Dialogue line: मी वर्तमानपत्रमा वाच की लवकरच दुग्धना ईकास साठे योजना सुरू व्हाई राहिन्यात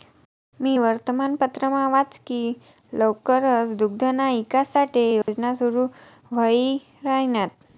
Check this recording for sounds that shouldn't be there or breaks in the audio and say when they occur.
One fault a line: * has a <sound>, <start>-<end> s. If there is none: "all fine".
* has a dropout, 5.2-5.3 s